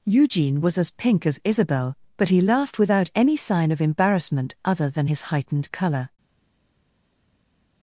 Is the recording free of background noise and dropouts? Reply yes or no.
yes